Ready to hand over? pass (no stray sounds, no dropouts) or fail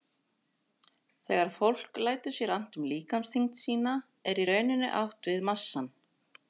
pass